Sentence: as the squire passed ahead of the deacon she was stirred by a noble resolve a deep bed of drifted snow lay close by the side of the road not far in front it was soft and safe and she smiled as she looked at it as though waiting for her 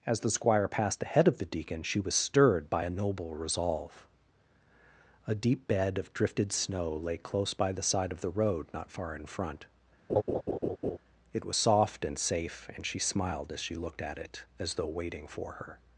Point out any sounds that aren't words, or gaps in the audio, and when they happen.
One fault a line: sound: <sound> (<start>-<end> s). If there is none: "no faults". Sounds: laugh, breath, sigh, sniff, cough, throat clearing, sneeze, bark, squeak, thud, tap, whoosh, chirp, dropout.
sound: laugh (10.1-11.0 s)